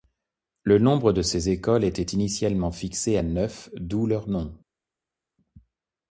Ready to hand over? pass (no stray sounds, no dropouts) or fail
pass